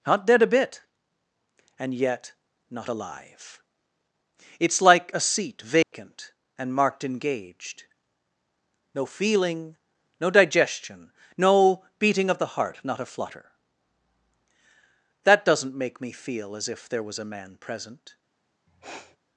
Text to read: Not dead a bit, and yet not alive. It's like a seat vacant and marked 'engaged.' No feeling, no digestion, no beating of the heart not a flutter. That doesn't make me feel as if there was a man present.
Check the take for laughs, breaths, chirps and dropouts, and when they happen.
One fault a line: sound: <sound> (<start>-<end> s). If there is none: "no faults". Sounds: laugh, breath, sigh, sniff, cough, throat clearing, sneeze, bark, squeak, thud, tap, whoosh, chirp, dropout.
sound: dropout (5.8-5.9 s)
sound: sniff (18.7-19.2 s)